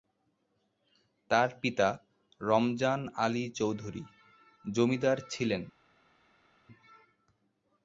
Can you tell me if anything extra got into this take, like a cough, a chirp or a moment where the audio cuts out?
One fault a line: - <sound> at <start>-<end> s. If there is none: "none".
none